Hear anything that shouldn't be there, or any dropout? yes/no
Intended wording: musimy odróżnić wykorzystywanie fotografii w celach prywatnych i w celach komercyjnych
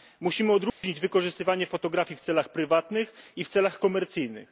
yes